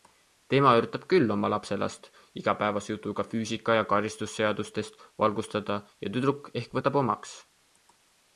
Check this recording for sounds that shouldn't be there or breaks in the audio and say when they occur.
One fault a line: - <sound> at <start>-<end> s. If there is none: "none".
none